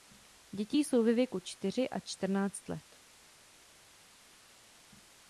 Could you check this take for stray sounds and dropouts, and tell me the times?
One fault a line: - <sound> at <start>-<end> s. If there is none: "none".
none